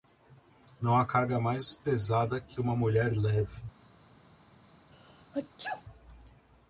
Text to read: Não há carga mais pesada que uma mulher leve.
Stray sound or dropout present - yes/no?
yes